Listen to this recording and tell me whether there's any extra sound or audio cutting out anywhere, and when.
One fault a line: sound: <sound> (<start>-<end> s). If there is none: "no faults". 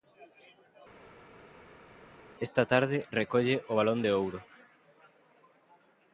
no faults